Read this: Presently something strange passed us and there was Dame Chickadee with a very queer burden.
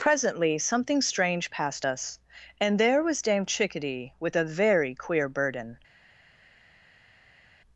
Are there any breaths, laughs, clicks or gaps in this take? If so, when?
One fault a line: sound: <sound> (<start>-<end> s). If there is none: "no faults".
no faults